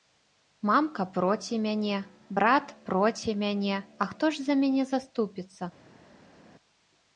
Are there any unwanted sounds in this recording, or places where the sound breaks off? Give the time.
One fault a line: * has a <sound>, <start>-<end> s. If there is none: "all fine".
all fine